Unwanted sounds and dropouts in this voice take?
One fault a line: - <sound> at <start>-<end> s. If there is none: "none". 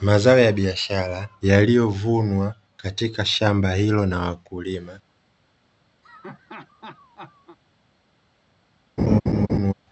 - laugh at 6.0-7.6 s
- laugh at 9.0-9.7 s